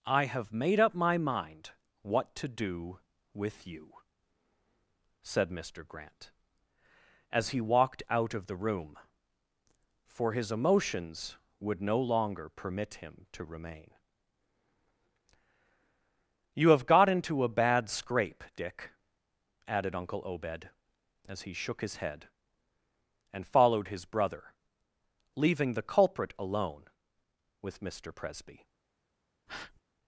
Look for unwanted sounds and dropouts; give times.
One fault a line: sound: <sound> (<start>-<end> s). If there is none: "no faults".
sound: breath (29.5-29.8 s)